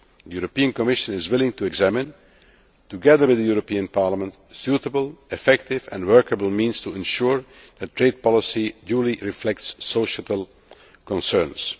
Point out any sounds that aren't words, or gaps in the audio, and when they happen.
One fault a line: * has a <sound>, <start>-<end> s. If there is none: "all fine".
all fine